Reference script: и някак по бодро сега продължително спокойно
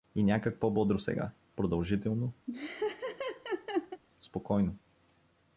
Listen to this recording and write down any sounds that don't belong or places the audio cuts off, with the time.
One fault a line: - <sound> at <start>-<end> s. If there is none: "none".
- laugh at 2.5-4.0 s